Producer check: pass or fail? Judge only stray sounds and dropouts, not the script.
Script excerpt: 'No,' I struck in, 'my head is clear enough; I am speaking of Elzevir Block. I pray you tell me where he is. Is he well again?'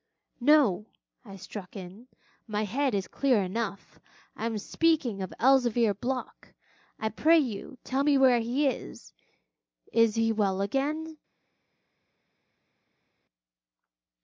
pass